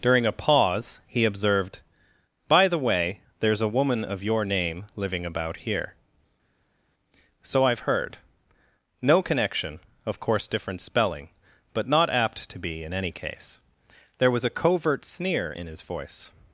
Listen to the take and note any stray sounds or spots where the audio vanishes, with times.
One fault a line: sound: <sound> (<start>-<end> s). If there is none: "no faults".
no faults